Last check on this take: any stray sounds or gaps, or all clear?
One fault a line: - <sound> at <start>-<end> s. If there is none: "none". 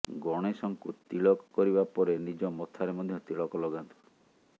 none